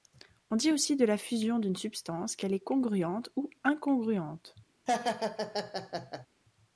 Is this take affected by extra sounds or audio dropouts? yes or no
yes